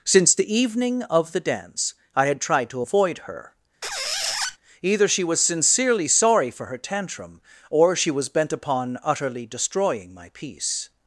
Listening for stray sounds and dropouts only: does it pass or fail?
fail